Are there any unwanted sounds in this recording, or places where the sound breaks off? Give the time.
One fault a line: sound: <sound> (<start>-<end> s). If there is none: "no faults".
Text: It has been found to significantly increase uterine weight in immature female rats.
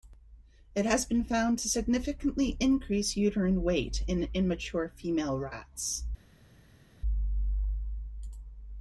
no faults